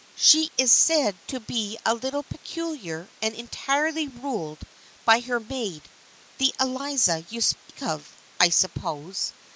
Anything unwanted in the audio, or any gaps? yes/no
yes